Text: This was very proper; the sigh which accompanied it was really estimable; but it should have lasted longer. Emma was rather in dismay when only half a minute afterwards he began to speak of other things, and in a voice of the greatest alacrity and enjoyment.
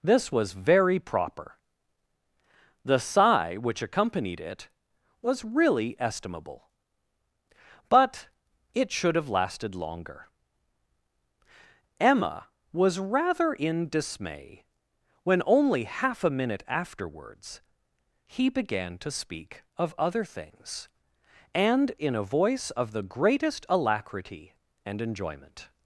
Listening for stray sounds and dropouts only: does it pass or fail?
pass